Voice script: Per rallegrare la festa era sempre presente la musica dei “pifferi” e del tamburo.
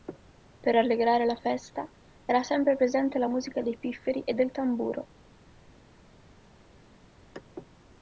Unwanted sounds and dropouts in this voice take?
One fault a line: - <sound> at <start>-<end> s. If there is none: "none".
none